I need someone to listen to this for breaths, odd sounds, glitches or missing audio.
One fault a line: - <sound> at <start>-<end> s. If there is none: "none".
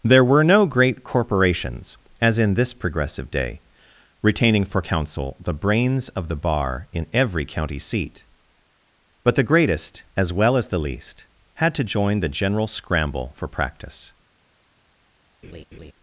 - laugh at 15.4-15.9 s